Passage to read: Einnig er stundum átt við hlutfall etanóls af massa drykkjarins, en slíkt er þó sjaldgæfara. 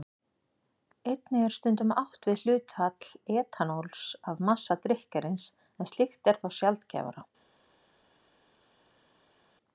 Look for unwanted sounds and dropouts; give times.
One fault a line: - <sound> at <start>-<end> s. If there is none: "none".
none